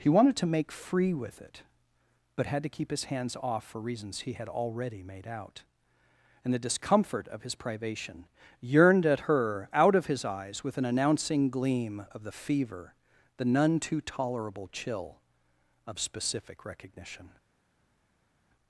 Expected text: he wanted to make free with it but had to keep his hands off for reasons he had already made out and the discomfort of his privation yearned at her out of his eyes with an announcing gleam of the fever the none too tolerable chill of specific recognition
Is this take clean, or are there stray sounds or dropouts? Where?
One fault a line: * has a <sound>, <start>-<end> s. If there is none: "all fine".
all fine